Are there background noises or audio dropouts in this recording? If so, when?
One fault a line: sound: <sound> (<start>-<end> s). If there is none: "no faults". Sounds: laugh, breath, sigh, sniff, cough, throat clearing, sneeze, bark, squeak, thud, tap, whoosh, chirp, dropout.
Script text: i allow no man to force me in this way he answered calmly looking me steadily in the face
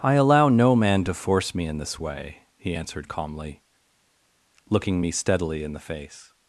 no faults